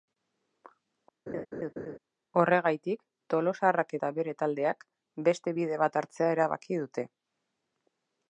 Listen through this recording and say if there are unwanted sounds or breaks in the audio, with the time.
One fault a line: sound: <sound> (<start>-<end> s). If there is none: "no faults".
sound: laugh (1.3-2.0 s)